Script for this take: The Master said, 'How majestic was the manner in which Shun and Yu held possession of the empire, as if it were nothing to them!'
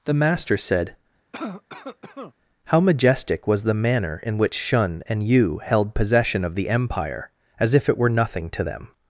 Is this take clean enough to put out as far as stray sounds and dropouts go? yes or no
no